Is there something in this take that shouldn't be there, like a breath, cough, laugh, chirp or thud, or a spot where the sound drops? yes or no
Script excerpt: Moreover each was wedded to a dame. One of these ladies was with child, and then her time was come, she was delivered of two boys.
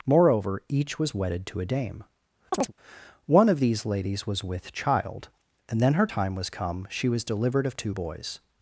yes